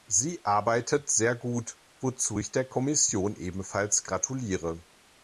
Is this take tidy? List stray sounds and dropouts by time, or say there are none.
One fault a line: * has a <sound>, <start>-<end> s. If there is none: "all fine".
all fine